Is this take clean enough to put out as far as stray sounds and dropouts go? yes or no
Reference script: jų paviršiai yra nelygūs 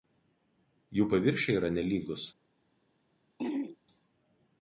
no